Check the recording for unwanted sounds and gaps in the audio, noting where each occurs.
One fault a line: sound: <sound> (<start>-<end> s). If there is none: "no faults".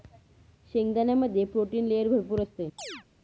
sound: chirp (2.8-3.0 s)